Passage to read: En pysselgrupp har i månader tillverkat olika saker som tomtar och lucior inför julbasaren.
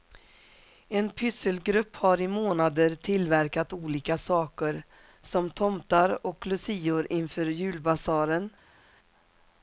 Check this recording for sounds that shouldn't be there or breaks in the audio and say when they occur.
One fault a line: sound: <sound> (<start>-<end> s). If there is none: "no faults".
no faults